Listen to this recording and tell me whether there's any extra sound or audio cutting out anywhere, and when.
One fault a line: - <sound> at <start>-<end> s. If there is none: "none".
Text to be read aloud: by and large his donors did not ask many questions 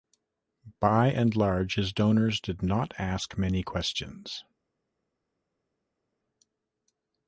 none